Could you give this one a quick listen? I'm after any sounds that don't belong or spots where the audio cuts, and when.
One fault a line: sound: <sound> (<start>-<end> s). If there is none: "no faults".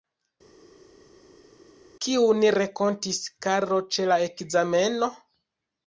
no faults